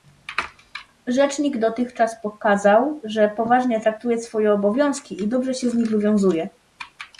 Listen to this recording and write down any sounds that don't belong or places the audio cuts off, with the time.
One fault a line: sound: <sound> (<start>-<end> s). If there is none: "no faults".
no faults